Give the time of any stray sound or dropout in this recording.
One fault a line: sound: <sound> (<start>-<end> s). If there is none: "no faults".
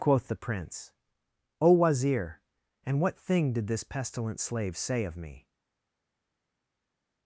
no faults